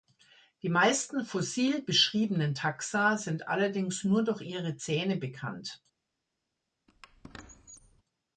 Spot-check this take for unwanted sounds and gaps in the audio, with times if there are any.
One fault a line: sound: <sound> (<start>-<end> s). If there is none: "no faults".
sound: squeak (6.9-8.0 s)